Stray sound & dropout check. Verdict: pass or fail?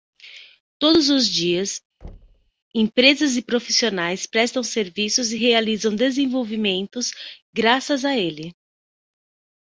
fail